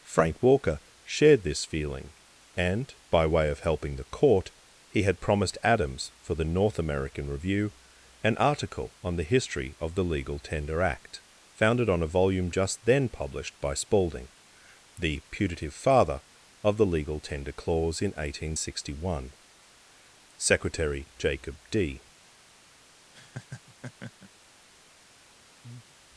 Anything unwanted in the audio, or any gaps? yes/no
yes